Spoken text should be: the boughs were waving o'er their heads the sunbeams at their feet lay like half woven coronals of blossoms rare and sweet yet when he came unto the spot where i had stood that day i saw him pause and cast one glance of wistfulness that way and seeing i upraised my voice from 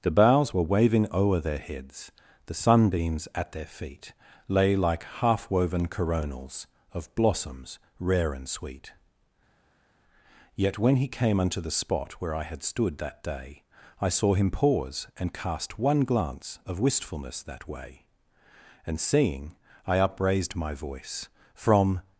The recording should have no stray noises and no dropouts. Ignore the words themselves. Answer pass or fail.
pass